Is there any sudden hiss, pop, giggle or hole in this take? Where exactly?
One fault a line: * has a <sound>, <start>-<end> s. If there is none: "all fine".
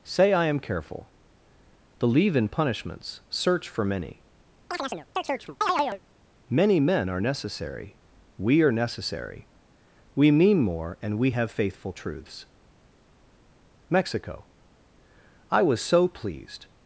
* has a chirp, 4.7-6.0 s